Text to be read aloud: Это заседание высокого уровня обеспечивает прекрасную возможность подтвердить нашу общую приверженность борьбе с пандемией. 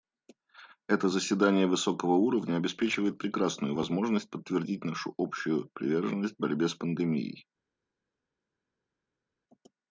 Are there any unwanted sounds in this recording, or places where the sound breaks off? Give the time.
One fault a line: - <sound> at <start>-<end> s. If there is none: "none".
none